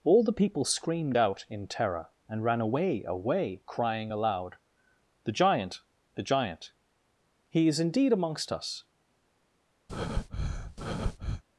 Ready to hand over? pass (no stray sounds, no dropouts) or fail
fail